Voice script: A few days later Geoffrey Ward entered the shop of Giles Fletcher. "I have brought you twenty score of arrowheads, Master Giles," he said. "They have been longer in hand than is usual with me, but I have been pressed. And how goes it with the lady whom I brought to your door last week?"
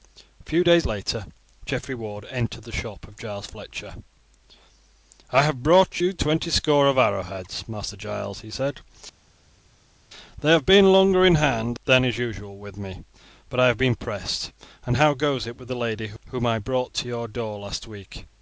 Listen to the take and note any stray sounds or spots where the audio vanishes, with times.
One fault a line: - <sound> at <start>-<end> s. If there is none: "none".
none